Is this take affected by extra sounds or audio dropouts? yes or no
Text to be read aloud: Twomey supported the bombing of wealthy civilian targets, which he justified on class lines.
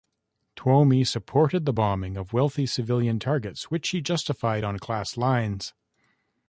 no